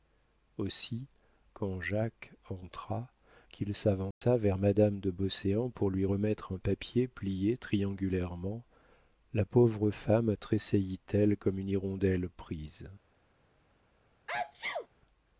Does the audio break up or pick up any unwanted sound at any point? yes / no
yes